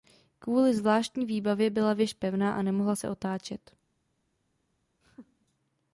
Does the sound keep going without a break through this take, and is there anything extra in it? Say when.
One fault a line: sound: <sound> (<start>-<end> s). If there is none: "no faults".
sound: laugh (5.0-5.5 s)